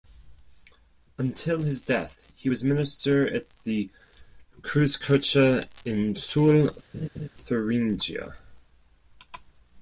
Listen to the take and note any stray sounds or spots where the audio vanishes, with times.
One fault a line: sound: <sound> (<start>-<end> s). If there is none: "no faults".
sound: laugh (6.9-7.3 s)